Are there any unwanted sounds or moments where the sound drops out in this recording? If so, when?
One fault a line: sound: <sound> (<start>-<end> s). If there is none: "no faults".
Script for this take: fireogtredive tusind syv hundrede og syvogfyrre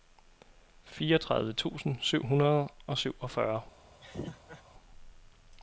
sound: laugh (4.0-4.6 s)